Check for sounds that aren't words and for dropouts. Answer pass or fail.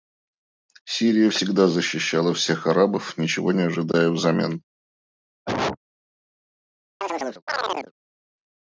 fail